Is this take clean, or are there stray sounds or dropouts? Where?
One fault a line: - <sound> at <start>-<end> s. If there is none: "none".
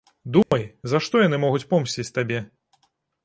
- dropout at 0.4-0.5 s